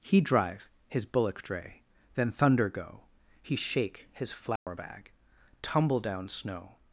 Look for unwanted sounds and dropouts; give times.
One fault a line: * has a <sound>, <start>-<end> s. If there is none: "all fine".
* has a dropout, 4.6-4.7 s